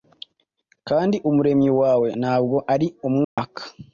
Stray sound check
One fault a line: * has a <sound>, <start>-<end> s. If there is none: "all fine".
* has a dropout, 3.2-3.4 s